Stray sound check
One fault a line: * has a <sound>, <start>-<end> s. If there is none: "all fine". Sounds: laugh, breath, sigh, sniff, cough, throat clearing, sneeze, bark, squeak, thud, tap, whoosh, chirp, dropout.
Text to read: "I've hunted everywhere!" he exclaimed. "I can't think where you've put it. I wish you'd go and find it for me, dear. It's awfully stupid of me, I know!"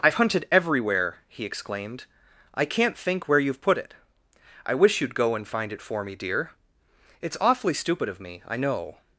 all fine